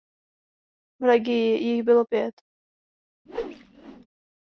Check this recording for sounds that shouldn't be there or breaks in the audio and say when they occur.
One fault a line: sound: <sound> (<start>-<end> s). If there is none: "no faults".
sound: whoosh (3.3-4.1 s)